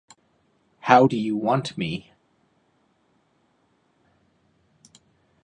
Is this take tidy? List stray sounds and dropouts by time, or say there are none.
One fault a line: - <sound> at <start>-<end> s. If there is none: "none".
none